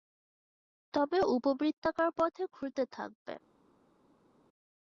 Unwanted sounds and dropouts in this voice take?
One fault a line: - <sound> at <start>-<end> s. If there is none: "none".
none